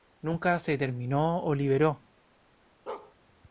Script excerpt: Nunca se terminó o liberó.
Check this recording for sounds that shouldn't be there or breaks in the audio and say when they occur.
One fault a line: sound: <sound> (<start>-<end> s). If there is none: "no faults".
sound: bark (2.9-3.1 s)